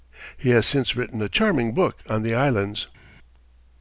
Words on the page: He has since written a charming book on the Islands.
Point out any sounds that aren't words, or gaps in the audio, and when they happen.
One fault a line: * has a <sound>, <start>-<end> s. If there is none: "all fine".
all fine